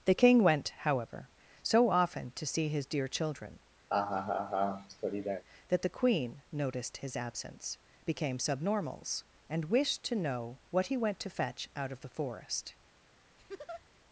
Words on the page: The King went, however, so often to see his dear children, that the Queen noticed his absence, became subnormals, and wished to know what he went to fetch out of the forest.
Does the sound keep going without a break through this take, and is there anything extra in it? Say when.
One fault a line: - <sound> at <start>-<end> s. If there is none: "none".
- laugh at 3.9-5.4 s
- laugh at 13.4-13.8 s